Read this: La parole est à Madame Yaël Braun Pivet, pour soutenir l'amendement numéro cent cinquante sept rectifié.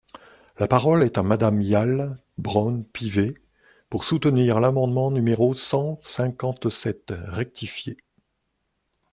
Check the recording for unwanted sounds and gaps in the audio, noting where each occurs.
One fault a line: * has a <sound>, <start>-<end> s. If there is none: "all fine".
all fine